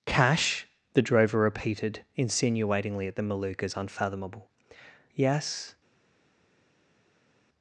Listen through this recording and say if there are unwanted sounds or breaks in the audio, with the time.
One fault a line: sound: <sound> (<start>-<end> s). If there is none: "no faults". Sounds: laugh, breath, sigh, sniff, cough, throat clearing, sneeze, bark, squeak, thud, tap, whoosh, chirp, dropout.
no faults